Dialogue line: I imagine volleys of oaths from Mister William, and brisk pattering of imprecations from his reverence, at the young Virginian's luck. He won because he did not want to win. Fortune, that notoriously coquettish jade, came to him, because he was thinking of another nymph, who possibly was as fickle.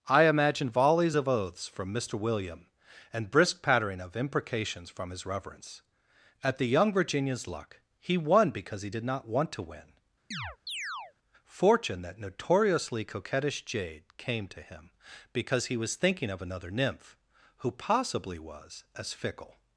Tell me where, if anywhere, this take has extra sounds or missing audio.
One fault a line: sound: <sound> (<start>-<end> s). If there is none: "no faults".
sound: chirp (10.3-11.1 s)